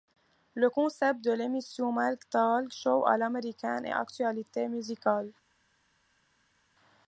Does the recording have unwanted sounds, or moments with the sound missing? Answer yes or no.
no